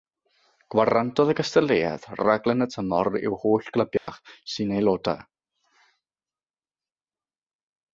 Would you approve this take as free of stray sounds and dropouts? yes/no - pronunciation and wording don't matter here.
no